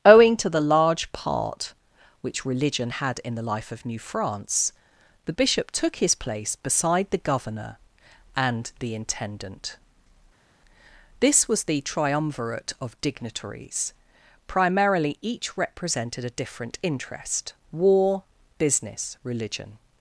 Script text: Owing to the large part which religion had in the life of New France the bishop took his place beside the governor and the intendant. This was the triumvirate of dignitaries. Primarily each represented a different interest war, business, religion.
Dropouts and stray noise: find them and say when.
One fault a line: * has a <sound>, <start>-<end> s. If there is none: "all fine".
all fine